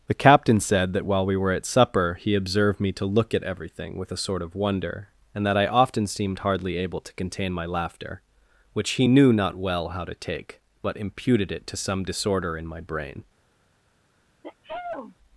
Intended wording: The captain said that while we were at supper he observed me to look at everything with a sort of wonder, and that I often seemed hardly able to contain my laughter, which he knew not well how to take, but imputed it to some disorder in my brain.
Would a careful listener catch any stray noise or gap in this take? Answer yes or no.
yes